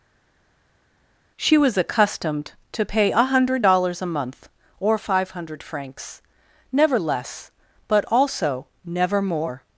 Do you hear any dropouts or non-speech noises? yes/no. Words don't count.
no